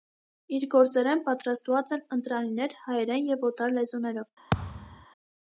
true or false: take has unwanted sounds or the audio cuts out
true